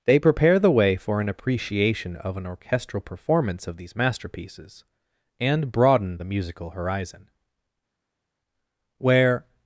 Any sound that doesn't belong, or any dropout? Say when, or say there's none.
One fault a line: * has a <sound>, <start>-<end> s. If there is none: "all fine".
all fine